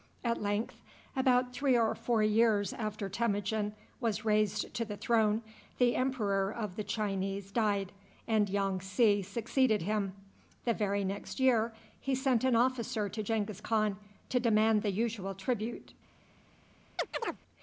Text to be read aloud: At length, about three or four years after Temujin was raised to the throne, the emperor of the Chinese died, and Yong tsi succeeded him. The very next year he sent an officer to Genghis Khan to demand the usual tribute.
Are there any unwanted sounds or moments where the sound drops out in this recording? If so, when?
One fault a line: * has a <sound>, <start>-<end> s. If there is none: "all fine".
* has a chirp, 17.0-17.4 s